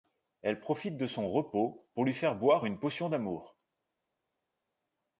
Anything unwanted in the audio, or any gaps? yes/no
no